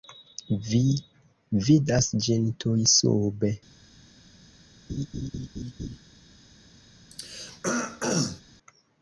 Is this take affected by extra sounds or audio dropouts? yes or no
yes